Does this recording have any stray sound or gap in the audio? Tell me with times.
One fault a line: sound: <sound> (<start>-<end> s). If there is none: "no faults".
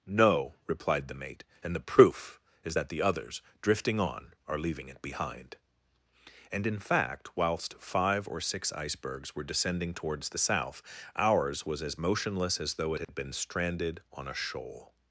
sound: dropout (13.0-13.1 s)